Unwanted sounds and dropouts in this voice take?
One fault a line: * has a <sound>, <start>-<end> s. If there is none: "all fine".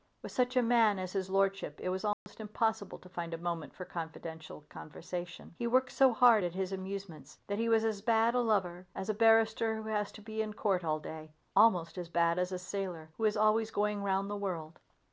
* has a dropout, 2.1-2.3 s